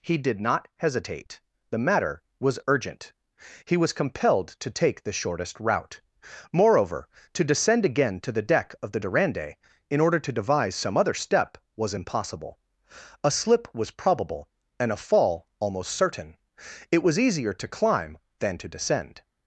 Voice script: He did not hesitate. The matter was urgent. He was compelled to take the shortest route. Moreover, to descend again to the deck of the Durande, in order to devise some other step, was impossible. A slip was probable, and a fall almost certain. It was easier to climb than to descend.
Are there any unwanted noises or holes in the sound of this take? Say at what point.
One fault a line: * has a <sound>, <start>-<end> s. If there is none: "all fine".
all fine